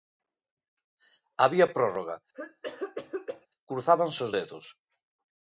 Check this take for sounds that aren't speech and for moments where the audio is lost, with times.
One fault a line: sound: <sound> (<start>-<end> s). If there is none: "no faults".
sound: cough (2.3-3.5 s)